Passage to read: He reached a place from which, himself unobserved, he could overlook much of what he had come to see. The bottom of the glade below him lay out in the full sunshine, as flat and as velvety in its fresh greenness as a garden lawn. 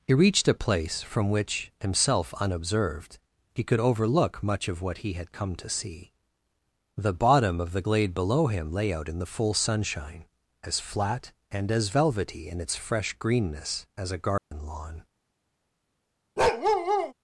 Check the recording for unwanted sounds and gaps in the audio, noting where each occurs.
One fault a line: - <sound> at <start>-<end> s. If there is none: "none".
- dropout at 14.4-14.5 s
- bark at 16.4-17.1 s